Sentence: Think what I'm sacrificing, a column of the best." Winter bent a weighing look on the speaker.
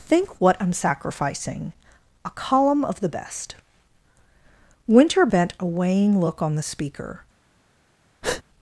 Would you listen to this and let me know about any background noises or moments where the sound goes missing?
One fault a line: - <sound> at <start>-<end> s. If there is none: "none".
- breath at 8.2-8.4 s